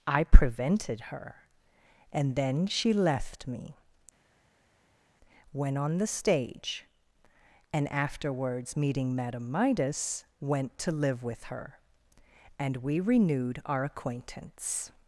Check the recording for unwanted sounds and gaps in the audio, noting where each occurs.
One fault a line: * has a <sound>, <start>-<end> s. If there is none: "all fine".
all fine